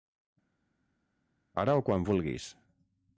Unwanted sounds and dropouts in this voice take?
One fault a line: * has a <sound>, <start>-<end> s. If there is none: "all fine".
all fine